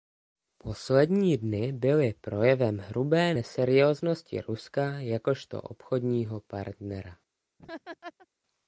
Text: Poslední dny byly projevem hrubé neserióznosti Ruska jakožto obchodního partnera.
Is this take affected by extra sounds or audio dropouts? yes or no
yes